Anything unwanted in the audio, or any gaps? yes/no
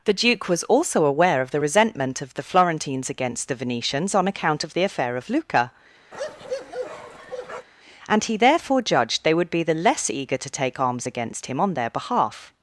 yes